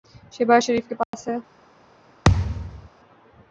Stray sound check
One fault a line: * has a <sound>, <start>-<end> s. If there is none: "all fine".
* has a dropout, 1.0-1.1 s
* has a thud, 2.2-2.9 s